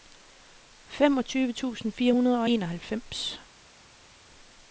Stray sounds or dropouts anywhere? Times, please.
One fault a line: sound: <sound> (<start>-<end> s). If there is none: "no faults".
no faults